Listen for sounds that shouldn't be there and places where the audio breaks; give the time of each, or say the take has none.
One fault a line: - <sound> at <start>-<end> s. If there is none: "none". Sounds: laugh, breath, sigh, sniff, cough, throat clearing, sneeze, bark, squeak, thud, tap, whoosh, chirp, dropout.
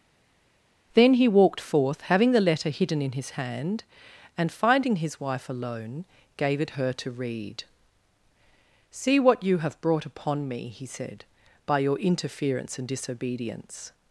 none